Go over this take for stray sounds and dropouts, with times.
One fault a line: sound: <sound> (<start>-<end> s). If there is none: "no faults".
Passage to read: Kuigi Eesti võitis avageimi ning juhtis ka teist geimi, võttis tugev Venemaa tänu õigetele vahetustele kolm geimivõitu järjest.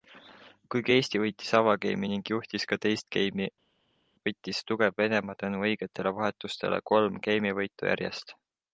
no faults